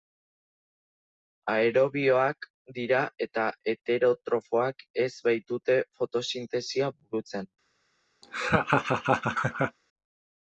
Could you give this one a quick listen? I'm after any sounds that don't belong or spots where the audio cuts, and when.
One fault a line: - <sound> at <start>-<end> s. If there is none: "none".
- laugh at 8.2-9.8 s